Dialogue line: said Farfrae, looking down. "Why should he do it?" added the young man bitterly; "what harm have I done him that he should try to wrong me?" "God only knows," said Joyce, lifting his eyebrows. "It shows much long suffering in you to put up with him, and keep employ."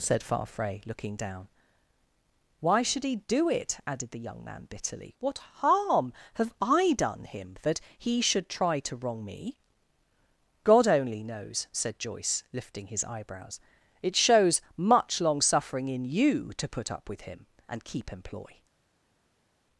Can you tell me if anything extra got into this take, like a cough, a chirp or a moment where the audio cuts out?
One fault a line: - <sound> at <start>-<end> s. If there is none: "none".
none